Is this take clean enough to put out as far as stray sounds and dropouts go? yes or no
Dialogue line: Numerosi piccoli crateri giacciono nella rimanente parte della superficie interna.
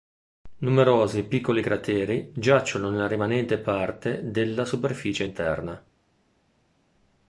yes